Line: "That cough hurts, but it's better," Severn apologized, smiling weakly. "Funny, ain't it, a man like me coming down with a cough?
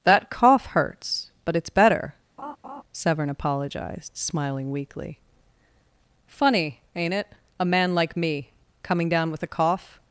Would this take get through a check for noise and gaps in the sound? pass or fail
fail